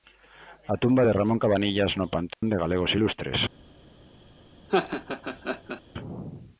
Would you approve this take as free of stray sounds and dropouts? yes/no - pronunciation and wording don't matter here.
no